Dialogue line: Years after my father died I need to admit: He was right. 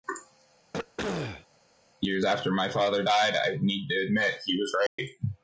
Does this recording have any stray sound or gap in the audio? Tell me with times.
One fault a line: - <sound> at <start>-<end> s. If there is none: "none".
- throat clearing at 0.7-1.5 s
- dropout at 4.9-5.0 s